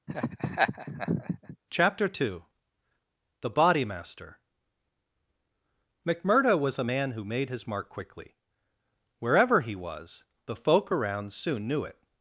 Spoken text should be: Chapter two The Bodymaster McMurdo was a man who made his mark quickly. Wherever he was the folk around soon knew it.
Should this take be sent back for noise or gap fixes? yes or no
yes